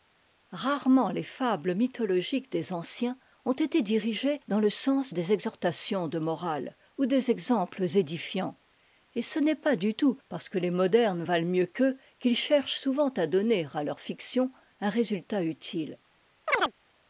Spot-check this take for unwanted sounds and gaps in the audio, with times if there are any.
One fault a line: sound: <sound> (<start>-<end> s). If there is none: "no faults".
sound: chirp (16.5-16.7 s)